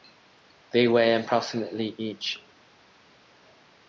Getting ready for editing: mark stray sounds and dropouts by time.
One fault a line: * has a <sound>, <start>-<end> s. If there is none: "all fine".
all fine